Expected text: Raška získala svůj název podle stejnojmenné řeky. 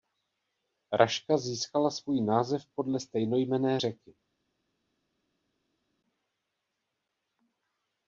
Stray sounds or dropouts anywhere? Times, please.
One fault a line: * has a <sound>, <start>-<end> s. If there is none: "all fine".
all fine